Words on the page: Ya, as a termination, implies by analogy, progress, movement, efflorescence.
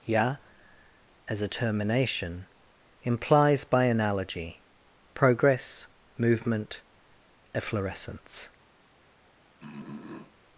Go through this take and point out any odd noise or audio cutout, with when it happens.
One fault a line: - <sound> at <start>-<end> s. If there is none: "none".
- throat clearing at 9.6-10.4 s